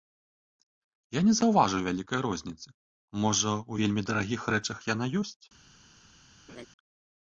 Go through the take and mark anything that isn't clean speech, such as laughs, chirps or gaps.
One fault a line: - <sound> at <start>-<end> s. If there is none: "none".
- laugh at 6.5-6.7 s